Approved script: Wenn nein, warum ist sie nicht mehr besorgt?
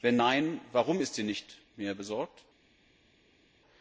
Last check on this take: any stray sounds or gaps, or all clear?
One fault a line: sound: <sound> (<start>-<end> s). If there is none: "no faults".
no faults